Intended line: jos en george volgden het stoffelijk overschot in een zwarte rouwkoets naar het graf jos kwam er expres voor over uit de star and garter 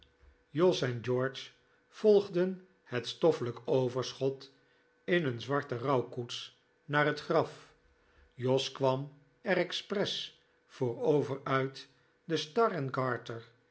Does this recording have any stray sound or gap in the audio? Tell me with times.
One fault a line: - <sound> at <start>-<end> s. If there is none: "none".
none